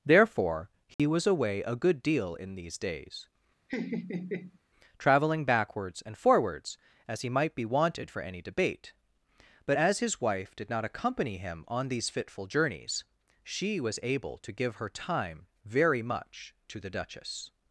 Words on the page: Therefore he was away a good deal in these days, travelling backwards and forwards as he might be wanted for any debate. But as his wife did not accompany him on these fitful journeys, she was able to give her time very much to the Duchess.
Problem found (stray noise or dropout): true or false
true